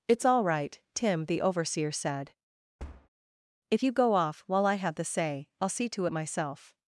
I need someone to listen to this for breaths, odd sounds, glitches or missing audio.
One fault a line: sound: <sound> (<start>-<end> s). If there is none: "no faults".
sound: thud (2.8-3.1 s)